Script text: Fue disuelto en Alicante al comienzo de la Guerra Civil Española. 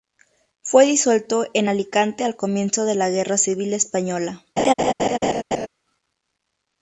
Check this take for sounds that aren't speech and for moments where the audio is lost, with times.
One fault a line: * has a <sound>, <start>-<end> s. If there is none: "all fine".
* has a laugh, 4.6-5.7 s